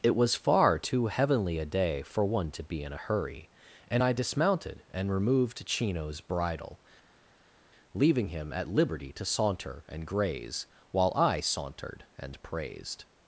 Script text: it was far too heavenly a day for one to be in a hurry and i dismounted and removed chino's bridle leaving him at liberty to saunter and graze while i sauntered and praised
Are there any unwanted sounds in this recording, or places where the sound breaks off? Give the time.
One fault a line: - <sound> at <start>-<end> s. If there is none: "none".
none